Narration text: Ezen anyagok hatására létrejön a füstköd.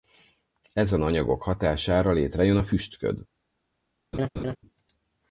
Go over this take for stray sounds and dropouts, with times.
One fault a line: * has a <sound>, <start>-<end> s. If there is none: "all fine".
* has a laugh, 4.1-4.6 s